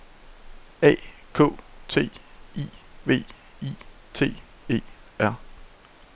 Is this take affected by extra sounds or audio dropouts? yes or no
no